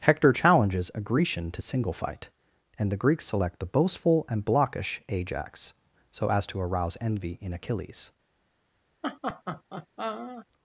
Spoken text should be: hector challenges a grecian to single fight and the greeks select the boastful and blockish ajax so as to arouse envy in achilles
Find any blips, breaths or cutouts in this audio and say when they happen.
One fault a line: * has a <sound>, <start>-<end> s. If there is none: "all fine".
* has a laugh, 9.0-10.5 s